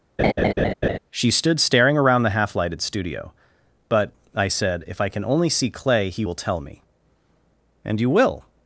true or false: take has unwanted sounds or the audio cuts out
true